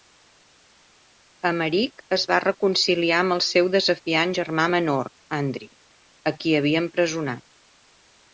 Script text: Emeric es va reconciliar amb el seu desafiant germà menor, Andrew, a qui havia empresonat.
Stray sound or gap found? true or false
false